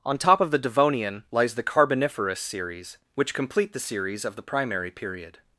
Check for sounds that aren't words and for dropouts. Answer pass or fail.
pass